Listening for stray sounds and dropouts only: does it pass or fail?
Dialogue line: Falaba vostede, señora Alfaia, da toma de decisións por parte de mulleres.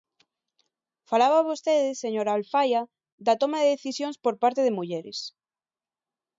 pass